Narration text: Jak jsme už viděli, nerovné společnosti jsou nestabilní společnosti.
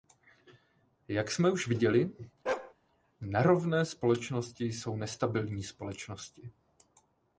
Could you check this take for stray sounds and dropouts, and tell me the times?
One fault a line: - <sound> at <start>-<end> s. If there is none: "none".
- bark at 2.5-2.7 s